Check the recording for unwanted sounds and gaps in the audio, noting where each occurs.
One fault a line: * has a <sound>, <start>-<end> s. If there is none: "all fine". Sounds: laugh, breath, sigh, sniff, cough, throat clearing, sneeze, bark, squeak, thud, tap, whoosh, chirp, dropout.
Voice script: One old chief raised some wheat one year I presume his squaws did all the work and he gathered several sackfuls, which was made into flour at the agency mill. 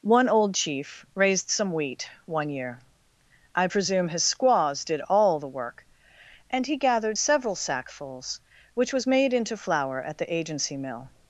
all fine